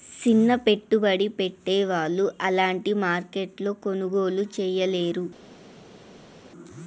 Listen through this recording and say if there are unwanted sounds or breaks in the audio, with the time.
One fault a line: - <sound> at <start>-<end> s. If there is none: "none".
none